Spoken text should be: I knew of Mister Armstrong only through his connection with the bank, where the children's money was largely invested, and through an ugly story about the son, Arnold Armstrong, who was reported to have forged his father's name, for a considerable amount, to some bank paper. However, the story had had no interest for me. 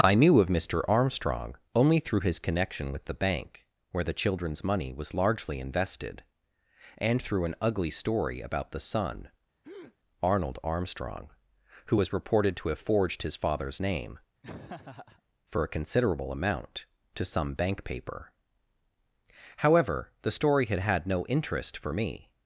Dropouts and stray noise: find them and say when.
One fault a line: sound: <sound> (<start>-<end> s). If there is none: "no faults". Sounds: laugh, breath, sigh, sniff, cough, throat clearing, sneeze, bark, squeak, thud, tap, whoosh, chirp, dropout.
sound: breath (9.6-10.0 s)
sound: laugh (14.4-15.2 s)